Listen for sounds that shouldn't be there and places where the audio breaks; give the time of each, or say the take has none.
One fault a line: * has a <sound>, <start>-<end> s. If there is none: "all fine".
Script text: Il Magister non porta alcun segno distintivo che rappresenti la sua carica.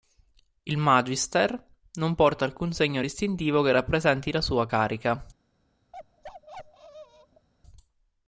* has a bark, 5.9-7.5 s